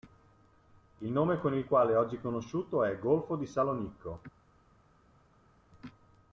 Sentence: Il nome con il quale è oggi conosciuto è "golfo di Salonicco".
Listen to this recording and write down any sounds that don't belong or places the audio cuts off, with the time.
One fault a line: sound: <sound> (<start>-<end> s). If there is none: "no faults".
no faults